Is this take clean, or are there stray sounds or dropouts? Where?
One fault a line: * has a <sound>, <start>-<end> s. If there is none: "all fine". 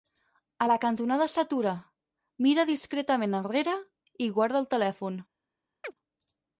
* has a chirp, 5.8-5.9 s